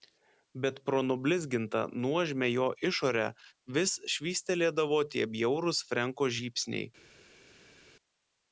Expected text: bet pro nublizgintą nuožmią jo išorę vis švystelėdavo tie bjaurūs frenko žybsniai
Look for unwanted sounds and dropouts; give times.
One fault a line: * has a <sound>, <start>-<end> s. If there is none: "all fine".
all fine